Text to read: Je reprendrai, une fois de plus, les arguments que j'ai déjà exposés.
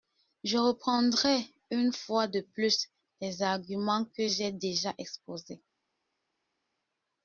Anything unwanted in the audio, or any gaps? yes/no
no